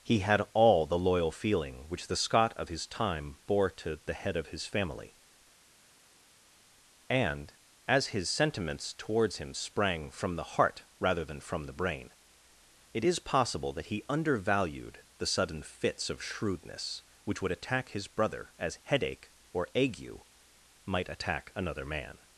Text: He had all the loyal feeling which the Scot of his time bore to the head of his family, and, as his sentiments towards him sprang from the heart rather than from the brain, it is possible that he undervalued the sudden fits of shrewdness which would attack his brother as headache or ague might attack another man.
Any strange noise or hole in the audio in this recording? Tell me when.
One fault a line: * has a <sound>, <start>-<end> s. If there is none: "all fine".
all fine